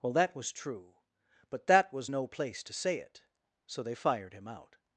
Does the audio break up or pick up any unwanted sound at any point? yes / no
no